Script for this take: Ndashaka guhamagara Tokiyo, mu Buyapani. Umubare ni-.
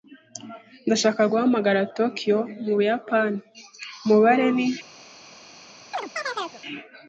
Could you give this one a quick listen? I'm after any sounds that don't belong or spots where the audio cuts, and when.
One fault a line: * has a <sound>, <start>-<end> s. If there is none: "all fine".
* has a chirp, 5.9-6.6 s